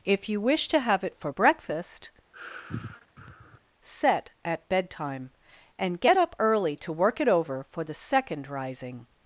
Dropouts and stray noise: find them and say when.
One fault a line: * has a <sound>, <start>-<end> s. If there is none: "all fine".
* has a sigh, 2.3-3.6 s